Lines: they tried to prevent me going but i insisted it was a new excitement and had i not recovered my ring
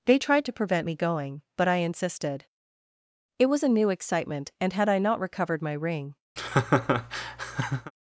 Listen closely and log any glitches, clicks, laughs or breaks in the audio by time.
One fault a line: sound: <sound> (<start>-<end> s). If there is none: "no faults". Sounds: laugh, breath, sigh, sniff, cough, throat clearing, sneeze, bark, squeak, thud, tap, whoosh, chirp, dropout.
sound: laugh (6.4-7.9 s)